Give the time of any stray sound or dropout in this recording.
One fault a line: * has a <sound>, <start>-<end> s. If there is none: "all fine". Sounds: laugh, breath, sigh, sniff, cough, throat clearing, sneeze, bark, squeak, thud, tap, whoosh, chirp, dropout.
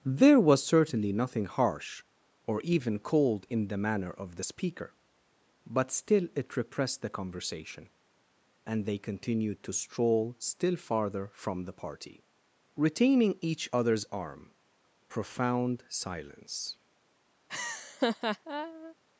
* has a laugh, 17.5-18.9 s